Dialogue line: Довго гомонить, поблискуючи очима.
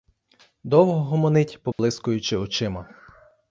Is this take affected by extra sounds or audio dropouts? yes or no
yes